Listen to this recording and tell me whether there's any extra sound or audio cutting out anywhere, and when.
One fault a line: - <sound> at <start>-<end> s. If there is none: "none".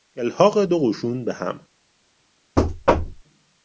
- thud at 2.6-3.2 s